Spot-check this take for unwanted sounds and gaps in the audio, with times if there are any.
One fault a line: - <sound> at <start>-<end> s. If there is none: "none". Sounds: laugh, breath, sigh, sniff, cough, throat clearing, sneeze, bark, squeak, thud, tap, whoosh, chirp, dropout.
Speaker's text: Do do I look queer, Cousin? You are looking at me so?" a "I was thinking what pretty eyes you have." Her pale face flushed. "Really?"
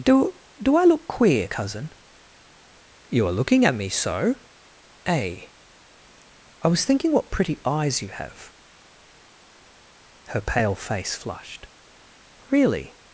none